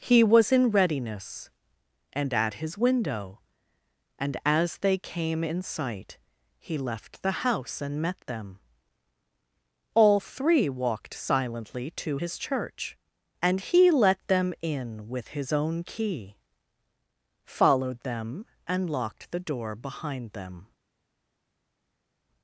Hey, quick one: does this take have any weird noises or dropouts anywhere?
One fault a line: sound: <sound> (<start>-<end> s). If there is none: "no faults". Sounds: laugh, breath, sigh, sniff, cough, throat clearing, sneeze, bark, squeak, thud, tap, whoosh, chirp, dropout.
no faults